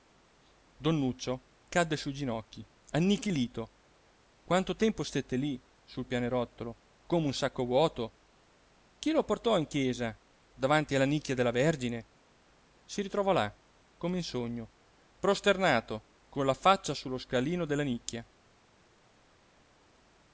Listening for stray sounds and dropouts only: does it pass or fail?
pass